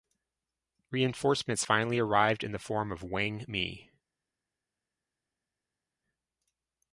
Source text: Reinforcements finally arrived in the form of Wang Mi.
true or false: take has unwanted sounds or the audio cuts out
false